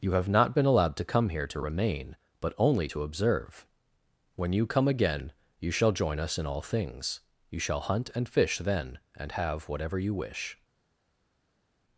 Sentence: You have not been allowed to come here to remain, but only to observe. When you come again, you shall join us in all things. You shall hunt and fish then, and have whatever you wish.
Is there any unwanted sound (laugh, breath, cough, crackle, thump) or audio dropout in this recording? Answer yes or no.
no